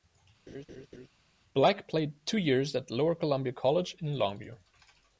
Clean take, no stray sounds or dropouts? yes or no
no